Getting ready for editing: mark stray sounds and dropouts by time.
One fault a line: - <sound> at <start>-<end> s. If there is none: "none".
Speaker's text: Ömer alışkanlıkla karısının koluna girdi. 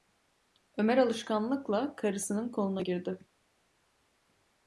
none